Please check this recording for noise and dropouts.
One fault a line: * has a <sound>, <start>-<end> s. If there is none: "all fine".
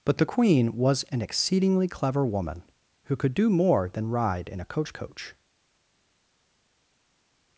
all fine